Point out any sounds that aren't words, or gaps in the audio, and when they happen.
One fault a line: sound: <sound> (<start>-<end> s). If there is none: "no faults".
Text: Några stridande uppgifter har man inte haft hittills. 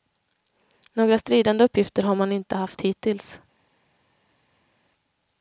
no faults